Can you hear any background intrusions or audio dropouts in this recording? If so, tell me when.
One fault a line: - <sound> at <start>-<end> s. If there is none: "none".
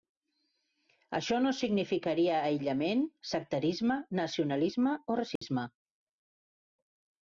- dropout at 5.4-5.4 s